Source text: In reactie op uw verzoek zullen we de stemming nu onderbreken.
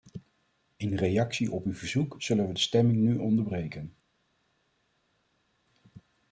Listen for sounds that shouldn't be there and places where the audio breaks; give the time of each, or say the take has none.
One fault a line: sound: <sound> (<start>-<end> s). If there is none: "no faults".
no faults